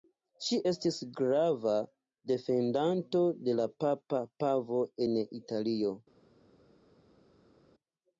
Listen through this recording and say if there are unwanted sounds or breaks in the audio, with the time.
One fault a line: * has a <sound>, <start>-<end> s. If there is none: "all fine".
all fine